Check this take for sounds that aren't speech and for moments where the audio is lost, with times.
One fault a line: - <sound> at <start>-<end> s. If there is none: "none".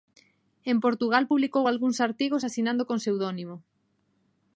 none